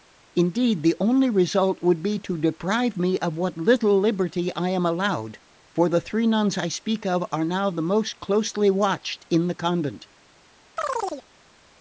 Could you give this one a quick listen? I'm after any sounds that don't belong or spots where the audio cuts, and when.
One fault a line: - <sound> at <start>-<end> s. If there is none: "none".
- chirp at 10.8-11.3 s